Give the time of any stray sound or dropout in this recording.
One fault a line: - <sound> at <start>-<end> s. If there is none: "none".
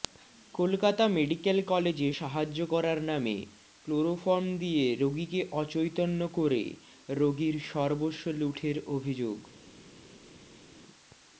none